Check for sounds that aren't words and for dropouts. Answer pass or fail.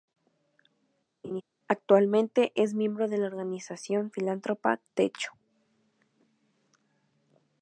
fail